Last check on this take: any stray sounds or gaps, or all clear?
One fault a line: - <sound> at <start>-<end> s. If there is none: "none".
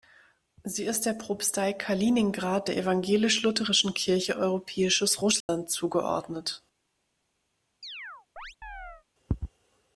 - dropout at 5.4-5.5 s
- chirp at 7.8-9.0 s